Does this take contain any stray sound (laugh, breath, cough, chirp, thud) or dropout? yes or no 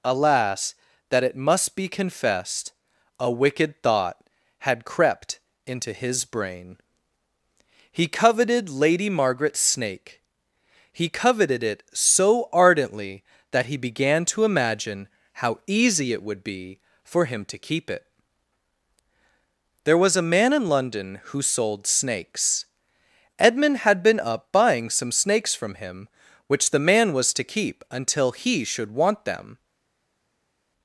no